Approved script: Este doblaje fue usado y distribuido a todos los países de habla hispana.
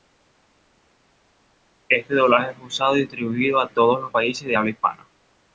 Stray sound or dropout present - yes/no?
no